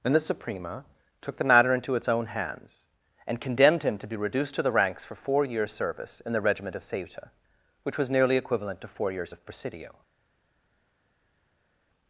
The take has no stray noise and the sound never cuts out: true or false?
true